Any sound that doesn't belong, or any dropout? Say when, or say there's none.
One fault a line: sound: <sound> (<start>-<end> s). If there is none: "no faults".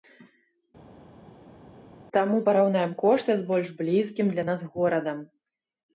no faults